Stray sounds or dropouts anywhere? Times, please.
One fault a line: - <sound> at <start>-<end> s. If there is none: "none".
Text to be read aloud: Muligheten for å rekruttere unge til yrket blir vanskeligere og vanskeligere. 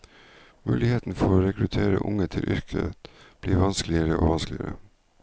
none